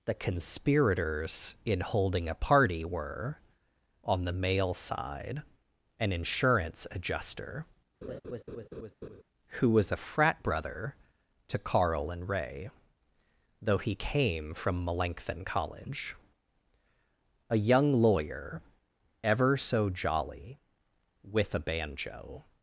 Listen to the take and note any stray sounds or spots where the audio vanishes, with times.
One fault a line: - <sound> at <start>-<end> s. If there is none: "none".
- laugh at 8.0-9.2 s